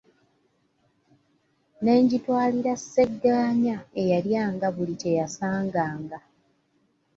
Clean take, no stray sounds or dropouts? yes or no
yes